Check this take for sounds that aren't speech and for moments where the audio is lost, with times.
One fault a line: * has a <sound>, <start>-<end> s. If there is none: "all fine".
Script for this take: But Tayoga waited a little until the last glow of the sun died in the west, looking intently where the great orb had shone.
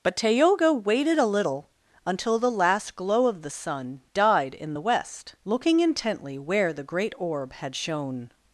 all fine